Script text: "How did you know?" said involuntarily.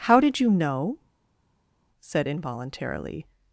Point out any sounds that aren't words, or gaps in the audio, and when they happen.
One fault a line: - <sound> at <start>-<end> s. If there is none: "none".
none